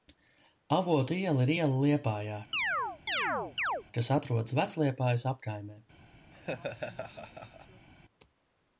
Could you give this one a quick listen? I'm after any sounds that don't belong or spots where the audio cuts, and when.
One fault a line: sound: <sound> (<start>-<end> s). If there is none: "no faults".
sound: chirp (2.5-3.8 s)
sound: laugh (6.3-7.9 s)